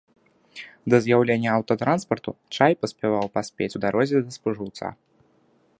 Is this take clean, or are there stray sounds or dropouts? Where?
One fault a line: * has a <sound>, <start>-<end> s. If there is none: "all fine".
all fine